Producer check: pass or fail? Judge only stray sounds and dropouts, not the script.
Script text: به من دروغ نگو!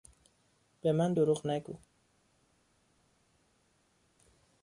pass